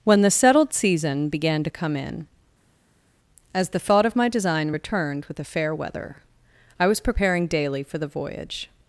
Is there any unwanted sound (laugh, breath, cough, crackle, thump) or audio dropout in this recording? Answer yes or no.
no